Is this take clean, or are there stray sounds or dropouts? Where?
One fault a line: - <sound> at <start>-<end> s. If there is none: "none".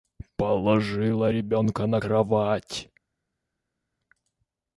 none